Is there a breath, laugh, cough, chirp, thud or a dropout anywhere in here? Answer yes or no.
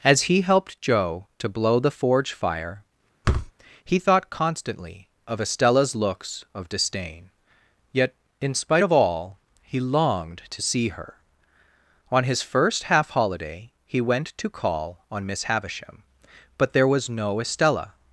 yes